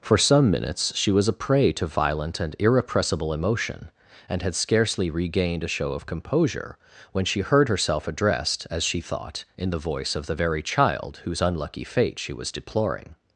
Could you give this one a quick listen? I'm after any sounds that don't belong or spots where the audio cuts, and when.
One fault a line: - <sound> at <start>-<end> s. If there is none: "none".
none